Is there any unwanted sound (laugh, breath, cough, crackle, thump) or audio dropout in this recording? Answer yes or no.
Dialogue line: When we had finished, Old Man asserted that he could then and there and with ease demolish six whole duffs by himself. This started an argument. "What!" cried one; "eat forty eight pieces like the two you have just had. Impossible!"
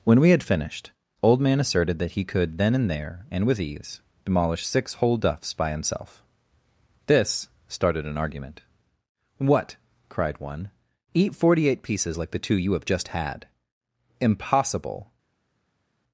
no